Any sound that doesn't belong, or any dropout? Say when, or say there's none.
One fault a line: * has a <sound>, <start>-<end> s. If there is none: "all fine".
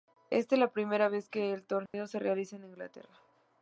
* has a dropout, 1.9-1.9 s